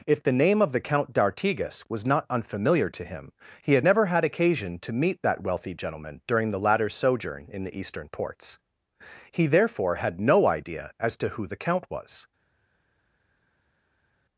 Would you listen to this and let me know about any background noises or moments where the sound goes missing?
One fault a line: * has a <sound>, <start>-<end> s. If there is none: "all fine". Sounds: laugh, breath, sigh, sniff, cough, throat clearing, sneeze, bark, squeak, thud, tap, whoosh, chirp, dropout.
all fine